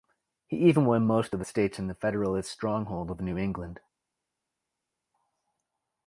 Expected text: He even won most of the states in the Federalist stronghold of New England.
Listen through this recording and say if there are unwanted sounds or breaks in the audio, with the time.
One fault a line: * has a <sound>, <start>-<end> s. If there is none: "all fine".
all fine